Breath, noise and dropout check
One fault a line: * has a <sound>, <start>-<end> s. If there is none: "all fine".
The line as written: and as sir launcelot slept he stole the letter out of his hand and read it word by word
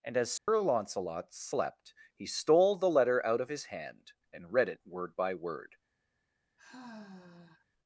* has a dropout, 0.4-0.5 s
* has a sigh, 6.6-7.7 s